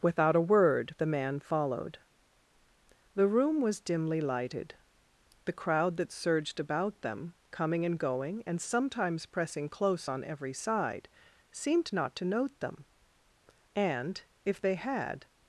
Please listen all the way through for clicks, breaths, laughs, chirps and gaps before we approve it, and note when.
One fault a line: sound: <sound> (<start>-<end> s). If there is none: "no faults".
no faults